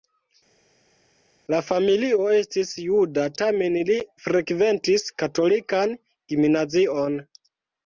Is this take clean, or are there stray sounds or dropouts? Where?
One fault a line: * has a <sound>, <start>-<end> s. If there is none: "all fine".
all fine